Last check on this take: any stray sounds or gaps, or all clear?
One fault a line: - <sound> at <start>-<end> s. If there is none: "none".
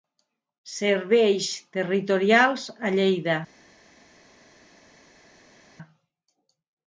none